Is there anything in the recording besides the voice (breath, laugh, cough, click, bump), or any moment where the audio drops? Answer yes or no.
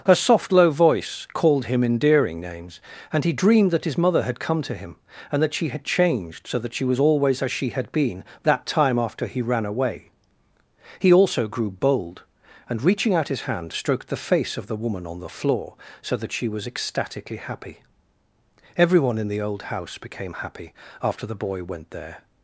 no